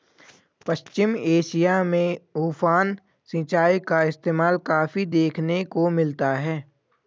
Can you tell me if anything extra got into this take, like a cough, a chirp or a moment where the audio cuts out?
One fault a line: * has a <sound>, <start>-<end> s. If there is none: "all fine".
all fine